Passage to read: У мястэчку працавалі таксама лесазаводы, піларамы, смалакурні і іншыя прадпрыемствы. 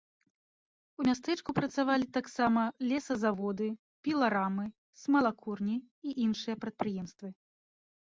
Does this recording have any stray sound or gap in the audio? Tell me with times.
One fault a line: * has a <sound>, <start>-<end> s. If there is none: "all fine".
all fine